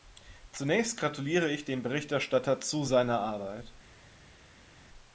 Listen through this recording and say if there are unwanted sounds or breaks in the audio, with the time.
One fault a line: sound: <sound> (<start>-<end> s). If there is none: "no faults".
no faults